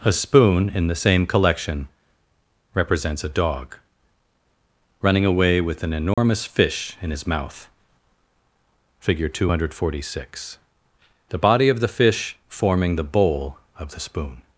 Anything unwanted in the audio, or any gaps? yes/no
yes